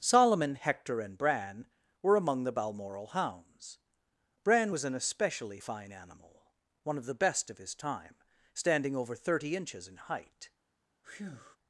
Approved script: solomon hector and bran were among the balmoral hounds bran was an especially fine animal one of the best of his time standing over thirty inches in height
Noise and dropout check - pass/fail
fail